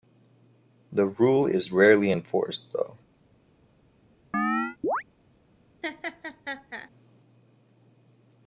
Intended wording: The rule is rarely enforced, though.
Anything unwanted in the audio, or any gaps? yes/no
yes